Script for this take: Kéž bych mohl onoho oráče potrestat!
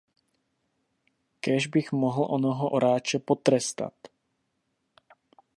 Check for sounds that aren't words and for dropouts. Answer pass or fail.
pass